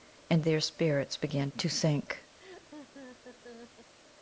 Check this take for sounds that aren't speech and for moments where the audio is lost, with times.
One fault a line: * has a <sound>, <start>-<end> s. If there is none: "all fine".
* has a laugh, 2.4-3.9 s